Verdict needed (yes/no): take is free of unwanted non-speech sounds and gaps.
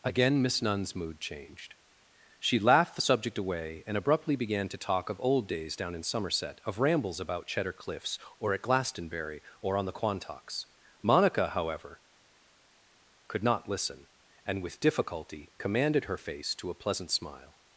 yes